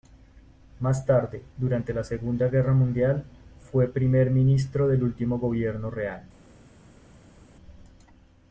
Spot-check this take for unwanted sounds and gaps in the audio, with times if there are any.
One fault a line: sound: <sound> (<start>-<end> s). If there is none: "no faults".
no faults